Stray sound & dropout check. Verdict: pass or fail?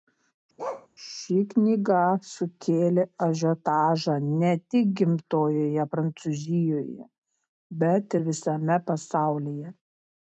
fail